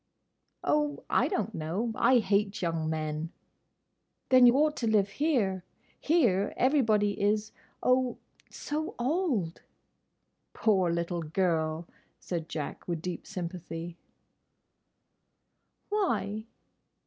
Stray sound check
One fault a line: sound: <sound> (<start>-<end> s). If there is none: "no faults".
no faults